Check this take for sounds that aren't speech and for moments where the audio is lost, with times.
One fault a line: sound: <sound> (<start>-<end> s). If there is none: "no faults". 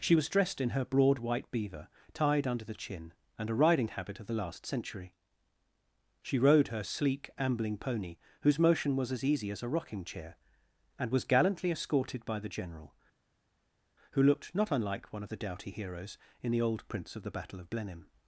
no faults